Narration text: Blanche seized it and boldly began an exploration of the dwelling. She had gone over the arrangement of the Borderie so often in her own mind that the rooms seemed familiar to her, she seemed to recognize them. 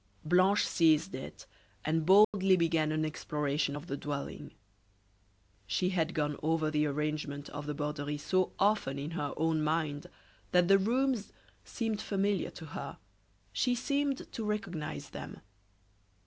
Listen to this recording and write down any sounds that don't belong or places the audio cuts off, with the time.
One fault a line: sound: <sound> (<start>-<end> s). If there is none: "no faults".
sound: dropout (2.2-2.3 s)